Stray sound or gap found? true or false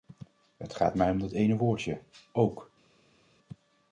false